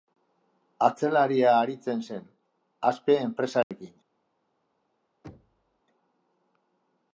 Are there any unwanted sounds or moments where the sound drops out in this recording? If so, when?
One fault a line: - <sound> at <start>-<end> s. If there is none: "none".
- dropout at 3.6-3.7 s
- thud at 5.2-5.8 s